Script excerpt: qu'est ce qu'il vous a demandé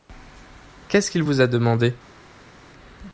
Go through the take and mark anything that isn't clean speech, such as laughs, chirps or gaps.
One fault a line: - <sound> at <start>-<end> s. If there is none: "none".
none